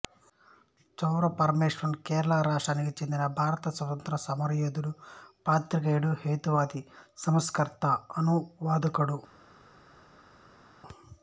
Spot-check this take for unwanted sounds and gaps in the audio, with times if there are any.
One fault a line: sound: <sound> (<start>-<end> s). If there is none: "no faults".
no faults